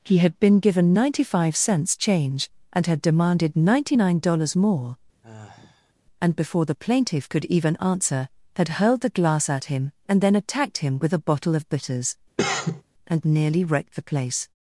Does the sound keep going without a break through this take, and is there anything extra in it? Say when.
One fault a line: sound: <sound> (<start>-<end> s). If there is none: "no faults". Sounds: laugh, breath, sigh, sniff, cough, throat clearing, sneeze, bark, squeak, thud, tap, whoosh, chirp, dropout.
sound: sigh (5.2-5.9 s)
sound: cough (12.4-12.8 s)